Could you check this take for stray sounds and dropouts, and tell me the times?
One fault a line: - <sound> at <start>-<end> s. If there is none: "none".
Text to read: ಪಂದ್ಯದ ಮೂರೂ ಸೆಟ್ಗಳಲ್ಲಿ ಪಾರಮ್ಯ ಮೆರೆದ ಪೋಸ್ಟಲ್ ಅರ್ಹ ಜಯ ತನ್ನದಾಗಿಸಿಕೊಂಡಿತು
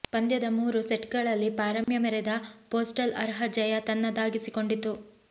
- dropout at 1.8-1.9 s